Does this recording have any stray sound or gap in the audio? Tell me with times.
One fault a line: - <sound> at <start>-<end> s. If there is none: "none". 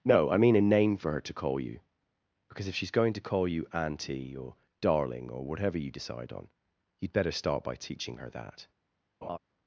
- laugh at 9.2-9.4 s